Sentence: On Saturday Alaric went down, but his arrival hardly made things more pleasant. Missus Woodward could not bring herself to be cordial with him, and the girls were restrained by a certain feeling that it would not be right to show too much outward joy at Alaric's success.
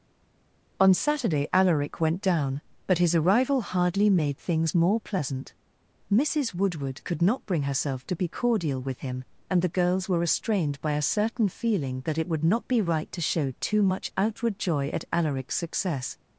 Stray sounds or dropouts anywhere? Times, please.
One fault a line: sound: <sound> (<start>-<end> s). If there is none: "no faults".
no faults